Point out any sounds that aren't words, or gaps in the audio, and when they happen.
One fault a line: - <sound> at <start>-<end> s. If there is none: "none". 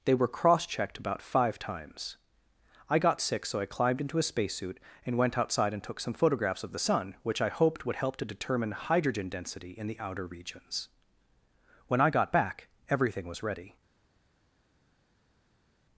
none